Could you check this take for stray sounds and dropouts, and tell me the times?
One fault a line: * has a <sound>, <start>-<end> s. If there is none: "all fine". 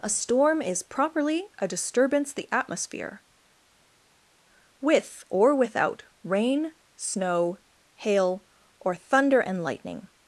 all fine